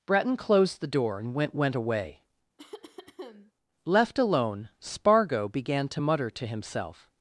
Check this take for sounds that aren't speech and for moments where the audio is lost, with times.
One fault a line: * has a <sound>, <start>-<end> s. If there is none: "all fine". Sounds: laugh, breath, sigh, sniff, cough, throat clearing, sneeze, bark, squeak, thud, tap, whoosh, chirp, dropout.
* has a cough, 2.6-3.5 s